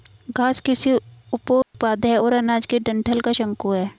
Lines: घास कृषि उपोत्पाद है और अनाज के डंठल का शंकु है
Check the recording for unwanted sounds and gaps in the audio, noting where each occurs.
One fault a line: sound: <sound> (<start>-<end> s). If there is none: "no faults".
sound: dropout (1.6-1.7 s)